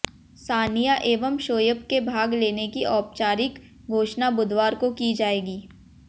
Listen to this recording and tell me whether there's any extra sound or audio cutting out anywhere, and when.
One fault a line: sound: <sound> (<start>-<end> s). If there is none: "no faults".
no faults